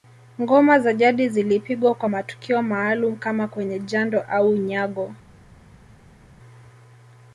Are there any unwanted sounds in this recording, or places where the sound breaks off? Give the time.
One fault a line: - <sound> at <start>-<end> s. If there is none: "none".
none